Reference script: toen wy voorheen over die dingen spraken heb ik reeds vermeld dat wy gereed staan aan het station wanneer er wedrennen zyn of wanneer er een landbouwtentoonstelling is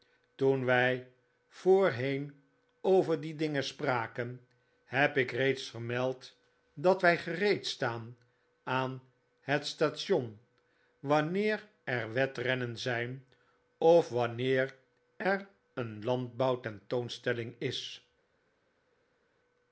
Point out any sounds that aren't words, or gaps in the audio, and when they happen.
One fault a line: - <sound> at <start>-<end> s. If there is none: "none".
none